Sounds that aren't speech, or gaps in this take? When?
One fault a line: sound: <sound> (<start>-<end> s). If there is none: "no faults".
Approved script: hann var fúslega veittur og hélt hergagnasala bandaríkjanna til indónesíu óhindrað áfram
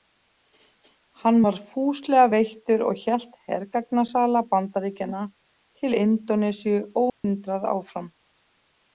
sound: dropout (7.1-7.2 s)